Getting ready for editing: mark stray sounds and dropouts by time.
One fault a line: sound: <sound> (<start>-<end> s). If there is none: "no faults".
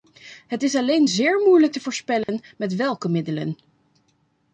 sound: dropout (2.2-2.3 s)